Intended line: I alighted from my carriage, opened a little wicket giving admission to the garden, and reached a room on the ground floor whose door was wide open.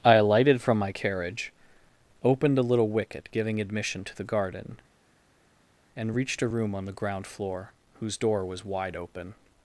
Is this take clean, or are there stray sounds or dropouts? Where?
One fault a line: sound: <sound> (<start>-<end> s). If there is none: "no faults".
no faults